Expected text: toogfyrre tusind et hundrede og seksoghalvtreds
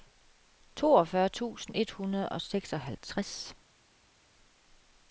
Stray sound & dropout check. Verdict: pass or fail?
pass